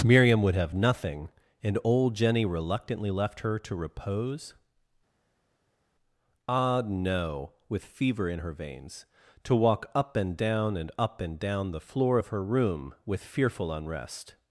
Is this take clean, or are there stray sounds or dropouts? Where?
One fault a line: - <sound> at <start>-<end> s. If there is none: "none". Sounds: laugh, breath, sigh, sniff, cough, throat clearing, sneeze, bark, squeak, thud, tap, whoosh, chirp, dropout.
none